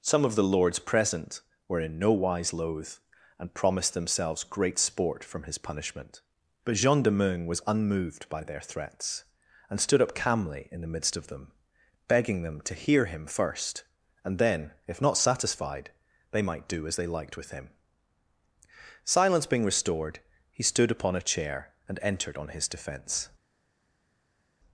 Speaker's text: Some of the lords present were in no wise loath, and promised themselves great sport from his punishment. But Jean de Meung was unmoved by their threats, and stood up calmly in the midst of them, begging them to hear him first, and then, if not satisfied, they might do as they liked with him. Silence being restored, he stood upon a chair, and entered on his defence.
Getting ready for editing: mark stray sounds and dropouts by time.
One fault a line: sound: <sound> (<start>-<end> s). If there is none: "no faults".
no faults